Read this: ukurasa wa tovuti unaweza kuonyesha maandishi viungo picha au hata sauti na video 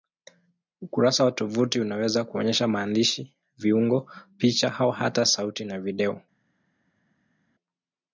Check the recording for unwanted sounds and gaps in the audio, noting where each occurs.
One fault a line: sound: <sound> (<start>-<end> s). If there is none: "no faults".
no faults